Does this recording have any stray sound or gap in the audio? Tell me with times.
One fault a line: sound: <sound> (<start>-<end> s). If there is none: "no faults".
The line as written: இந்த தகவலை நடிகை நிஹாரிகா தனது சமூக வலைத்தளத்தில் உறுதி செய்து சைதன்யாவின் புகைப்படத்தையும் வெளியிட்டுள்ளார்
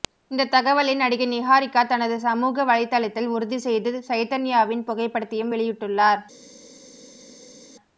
no faults